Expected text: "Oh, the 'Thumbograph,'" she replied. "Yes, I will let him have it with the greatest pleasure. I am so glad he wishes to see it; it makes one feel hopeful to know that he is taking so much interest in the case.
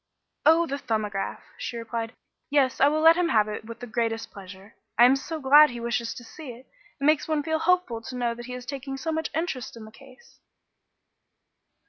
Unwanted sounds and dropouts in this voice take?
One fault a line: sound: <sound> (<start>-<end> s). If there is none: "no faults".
no faults